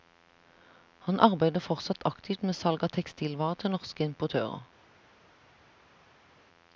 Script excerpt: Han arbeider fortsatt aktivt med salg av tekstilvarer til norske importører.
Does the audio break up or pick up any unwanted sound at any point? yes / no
no